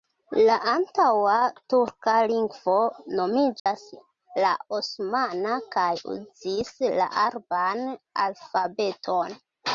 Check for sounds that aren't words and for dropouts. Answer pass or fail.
fail